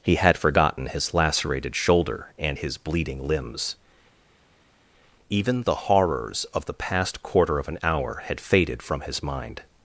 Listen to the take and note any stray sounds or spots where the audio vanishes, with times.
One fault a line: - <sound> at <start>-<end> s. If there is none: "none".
none